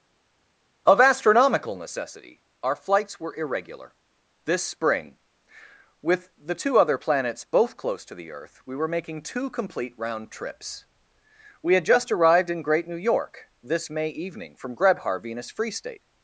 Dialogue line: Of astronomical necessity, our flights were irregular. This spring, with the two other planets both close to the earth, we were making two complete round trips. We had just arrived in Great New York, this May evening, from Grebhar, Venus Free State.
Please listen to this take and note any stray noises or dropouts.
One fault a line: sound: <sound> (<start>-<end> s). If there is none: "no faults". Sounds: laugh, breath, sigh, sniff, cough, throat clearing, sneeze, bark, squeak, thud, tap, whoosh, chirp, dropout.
no faults